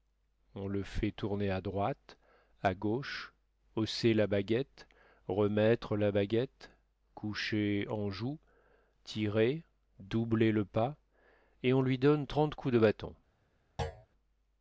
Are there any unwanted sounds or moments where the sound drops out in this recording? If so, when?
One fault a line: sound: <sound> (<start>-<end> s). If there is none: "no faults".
sound: thud (13.8-14.1 s)